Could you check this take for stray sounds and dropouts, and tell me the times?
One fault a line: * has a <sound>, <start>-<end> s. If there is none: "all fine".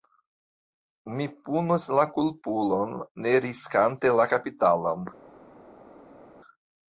all fine